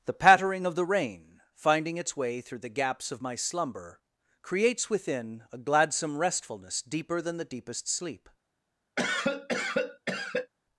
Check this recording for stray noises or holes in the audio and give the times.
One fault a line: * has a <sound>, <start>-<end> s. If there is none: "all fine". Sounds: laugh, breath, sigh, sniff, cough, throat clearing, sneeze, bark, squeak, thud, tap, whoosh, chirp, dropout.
* has a cough, 9.0-10.5 s